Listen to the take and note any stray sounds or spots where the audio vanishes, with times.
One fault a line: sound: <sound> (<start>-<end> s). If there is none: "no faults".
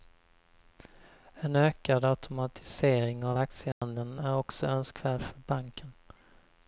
sound: dropout (3.7-3.8 s)